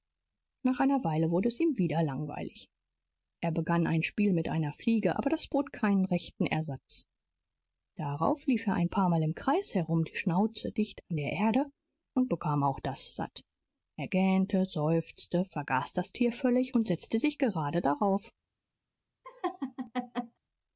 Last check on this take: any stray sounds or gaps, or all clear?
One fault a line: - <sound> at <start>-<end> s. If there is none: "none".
- laugh at 19.2-20.4 s